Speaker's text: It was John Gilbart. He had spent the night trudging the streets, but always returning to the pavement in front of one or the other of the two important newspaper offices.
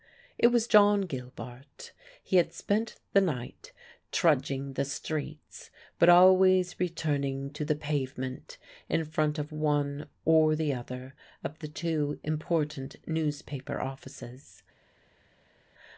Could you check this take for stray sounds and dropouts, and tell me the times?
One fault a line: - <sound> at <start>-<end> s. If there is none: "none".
none